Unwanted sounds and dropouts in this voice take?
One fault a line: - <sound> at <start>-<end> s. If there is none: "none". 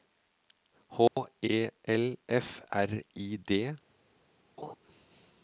- dropout at 1.1-1.2 s
- laugh at 4.6-4.8 s